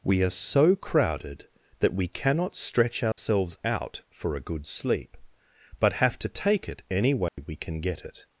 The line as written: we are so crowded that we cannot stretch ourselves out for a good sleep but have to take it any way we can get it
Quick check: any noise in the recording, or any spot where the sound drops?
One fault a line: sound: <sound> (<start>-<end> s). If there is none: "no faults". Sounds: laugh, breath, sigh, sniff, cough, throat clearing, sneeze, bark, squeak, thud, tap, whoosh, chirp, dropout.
sound: dropout (3.1-3.2 s)
sound: dropout (7.3-7.4 s)